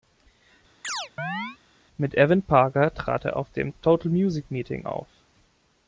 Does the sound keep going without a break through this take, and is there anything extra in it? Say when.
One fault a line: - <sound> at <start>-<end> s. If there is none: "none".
- chirp at 0.8-1.6 s